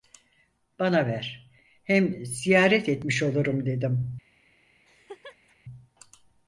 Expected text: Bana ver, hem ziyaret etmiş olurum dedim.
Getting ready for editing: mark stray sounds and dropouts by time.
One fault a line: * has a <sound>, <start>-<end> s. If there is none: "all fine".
* has a laugh, 4.8-5.6 s